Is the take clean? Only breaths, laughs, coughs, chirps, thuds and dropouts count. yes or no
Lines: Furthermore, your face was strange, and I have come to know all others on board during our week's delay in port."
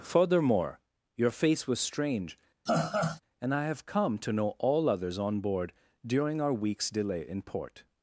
no